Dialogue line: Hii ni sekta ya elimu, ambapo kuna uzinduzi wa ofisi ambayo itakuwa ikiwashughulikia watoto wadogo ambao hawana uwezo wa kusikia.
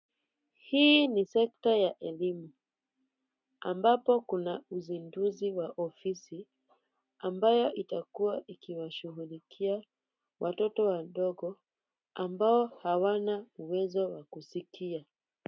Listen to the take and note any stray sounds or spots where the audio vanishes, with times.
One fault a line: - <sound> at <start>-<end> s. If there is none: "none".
none